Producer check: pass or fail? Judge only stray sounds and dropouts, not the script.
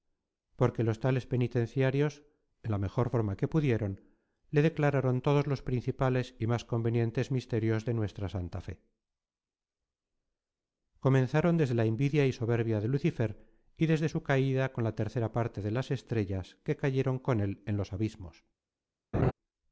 fail